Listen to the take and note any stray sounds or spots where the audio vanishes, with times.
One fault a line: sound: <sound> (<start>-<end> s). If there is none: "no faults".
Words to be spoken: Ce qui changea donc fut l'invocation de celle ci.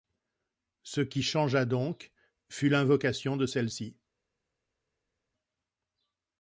no faults